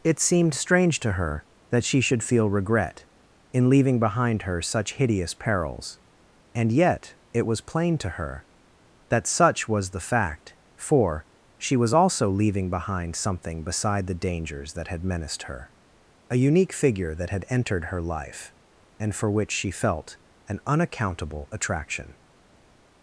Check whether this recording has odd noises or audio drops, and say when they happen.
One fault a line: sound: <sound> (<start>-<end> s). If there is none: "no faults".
no faults